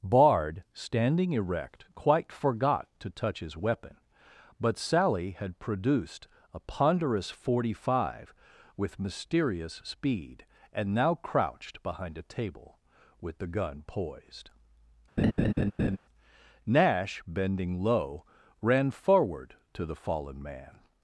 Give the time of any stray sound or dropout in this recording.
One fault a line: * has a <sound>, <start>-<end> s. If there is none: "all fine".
* has a laugh, 15.2-16.0 s